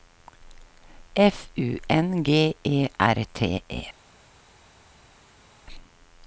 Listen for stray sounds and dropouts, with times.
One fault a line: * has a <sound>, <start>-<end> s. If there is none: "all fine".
all fine